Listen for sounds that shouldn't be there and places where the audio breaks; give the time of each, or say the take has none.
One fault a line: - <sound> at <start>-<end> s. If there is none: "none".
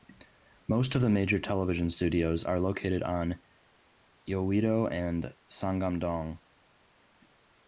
none